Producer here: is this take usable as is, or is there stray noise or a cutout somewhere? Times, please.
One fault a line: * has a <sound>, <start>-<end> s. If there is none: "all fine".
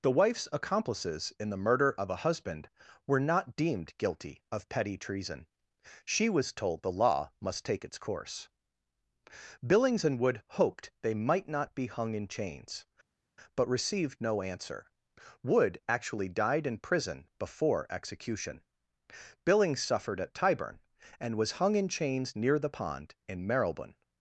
all fine